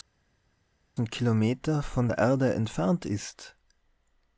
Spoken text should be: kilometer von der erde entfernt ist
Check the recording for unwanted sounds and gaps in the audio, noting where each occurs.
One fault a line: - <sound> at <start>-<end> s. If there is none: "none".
none